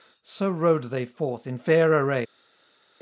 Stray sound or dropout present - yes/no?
no